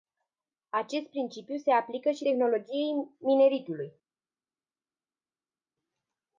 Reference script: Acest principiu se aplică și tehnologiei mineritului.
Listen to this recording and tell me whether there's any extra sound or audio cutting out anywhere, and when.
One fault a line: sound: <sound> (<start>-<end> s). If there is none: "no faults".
no faults